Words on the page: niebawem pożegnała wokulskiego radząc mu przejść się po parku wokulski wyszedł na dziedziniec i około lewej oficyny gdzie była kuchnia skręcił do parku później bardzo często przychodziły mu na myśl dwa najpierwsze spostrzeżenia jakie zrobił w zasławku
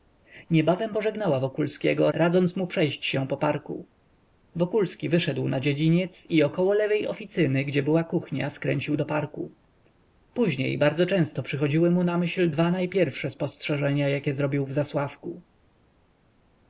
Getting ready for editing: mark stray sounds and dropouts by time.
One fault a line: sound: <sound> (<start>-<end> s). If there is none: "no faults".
no faults